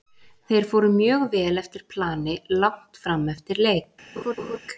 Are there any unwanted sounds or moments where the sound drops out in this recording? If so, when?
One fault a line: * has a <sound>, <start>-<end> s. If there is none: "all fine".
* has a laugh, 4.2-4.6 s